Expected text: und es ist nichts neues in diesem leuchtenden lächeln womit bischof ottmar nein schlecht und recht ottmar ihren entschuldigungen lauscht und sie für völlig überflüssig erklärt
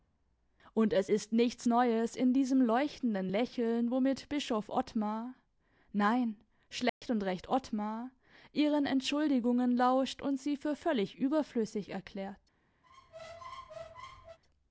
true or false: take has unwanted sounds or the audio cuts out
true